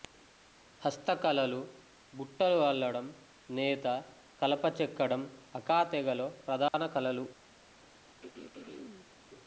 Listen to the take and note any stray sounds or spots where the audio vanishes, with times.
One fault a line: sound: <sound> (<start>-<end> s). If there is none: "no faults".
sound: dropout (6.7-6.7 s)
sound: throat clearing (8.2-9.1 s)